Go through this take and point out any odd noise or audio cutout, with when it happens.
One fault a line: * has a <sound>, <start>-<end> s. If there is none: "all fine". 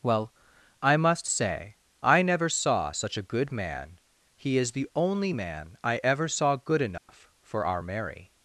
* has a dropout, 7.0-7.1 s